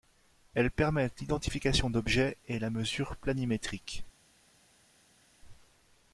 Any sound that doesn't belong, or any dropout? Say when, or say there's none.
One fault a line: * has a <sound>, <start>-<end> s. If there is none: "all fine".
all fine